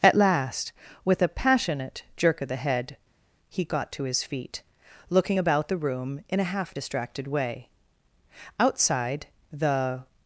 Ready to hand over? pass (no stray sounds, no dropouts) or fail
pass